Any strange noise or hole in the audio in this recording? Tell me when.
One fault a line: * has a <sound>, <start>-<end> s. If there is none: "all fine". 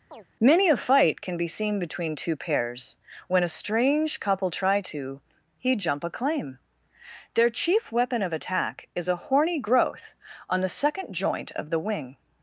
* has a chirp, 0.1-0.3 s